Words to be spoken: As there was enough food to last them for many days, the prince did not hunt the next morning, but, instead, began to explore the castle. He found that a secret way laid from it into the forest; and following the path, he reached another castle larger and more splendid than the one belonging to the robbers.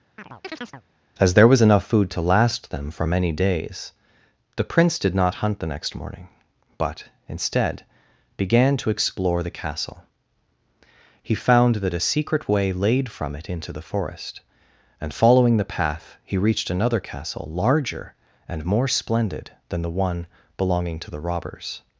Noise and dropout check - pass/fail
fail